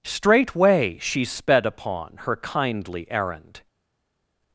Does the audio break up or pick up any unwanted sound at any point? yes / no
no